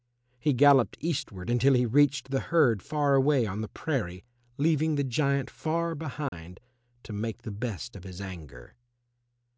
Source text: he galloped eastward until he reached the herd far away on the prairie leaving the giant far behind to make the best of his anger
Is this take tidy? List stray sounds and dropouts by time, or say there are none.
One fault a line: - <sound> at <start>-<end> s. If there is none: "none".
- dropout at 6.3-6.3 s